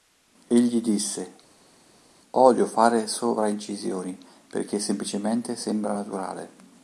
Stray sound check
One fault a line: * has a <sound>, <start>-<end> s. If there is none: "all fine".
all fine